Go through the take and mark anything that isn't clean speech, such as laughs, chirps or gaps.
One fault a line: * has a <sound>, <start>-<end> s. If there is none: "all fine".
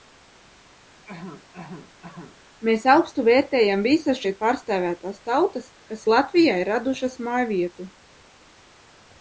* has a cough, 1.1-2.4 s